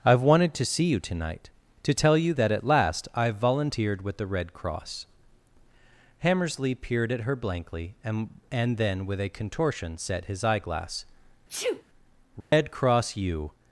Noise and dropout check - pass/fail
fail